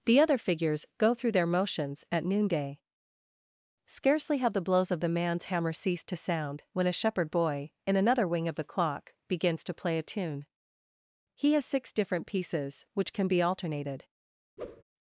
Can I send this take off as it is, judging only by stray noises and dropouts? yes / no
no